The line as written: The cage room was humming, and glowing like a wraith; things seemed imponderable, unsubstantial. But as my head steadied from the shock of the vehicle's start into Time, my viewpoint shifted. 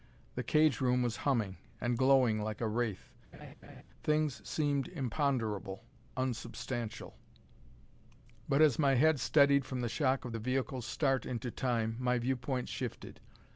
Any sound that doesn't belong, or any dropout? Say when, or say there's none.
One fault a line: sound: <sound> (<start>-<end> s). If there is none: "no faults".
sound: laugh (3.3-3.8 s)